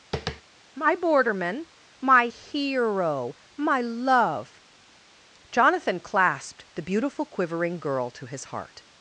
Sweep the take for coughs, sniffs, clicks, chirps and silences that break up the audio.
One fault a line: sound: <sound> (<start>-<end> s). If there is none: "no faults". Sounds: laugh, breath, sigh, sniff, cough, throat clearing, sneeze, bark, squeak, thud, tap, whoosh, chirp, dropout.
sound: tap (0.1-0.4 s)